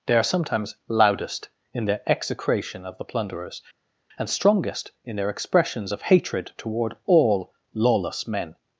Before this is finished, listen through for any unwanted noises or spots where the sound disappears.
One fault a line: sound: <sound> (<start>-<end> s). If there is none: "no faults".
no faults